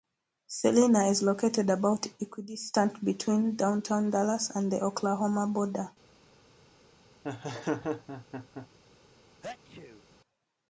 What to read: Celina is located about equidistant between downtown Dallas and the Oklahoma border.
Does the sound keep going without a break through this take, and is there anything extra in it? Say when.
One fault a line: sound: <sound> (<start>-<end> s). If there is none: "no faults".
sound: laugh (7.2-8.7 s)
sound: sneeze (9.4-10.1 s)